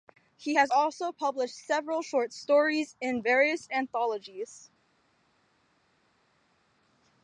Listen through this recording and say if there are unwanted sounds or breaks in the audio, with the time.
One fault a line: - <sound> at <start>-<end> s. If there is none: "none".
none